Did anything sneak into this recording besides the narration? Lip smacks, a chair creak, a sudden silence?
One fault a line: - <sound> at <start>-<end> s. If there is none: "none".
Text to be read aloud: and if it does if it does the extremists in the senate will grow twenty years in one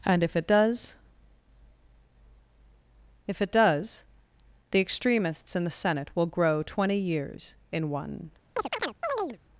- chirp at 8.6-9.4 s